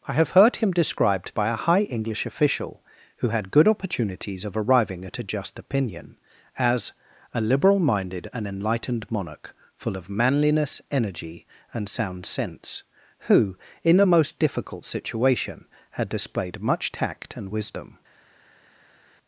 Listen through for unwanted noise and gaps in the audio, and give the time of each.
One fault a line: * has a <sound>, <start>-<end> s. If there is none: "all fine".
all fine